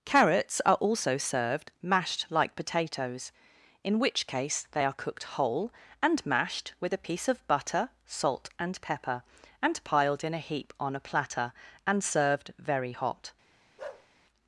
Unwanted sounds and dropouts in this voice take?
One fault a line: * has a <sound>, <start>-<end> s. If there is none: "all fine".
* has a bark, 13.8-14.1 s